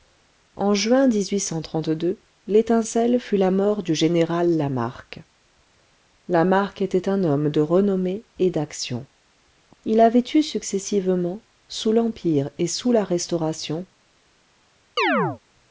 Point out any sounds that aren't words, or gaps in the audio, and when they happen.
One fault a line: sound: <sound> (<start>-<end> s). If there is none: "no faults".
sound: chirp (15.0-15.4 s)